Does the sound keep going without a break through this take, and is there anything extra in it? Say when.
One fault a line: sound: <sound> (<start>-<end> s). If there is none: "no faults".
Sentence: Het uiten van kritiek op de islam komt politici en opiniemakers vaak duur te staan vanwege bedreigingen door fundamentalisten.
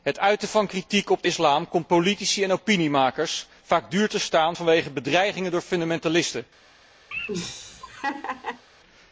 sound: laugh (7.1-8.6 s)